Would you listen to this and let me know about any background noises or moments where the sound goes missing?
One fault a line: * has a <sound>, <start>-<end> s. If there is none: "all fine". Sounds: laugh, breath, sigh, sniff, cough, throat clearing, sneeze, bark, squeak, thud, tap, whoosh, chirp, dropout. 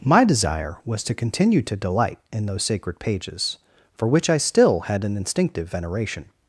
all fine